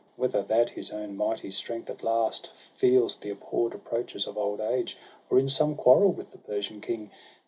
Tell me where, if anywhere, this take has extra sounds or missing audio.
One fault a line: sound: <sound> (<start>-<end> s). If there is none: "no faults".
no faults